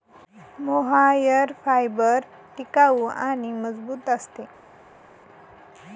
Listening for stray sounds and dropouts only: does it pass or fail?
pass